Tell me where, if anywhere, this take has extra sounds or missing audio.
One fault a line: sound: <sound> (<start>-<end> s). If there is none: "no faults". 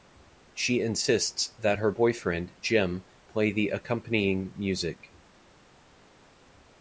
no faults